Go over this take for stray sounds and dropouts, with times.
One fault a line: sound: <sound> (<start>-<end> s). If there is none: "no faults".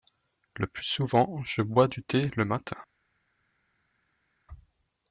no faults